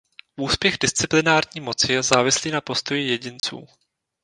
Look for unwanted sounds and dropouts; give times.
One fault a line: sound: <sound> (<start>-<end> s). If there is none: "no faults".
sound: dropout (3.4-3.4 s)